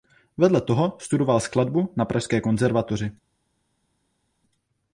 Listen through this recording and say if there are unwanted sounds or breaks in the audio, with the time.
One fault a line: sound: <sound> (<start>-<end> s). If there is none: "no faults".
no faults